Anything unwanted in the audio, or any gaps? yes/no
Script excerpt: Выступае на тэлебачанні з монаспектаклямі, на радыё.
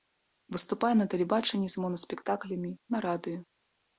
no